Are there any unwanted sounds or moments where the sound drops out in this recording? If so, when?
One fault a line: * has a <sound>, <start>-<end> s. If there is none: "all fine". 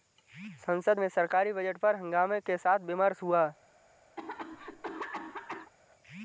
* has a cough, 4.2-5.7 s